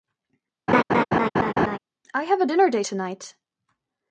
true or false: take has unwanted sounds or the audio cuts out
true